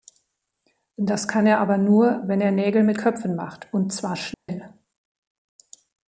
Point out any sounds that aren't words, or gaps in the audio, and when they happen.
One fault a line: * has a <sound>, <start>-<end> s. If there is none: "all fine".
* has a dropout, 4.3-4.5 s